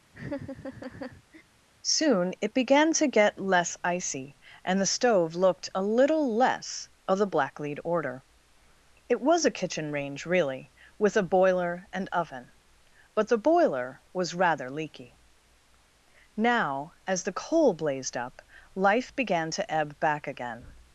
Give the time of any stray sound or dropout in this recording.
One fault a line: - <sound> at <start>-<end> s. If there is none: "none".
- laugh at 0.1-1.4 s